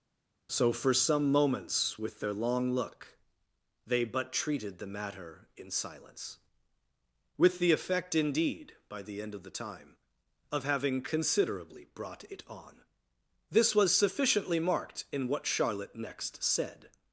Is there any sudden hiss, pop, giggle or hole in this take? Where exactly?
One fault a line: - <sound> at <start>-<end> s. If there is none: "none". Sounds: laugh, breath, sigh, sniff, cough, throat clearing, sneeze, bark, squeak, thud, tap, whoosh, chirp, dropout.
none